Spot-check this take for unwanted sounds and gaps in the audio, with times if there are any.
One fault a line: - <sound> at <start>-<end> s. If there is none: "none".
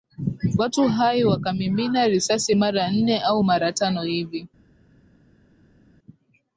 none